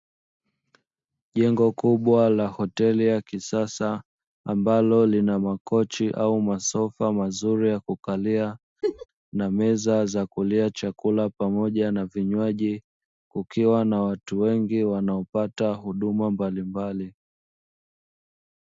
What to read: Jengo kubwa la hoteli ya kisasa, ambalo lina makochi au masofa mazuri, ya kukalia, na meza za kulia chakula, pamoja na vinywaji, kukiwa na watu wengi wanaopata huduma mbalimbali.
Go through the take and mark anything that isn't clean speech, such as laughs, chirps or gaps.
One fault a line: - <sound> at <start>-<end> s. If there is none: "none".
- laugh at 8.8-9.1 s